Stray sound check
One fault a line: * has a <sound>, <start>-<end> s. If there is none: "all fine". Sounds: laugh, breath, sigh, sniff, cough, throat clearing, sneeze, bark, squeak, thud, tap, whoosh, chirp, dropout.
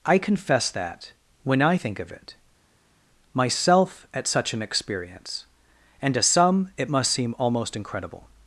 all fine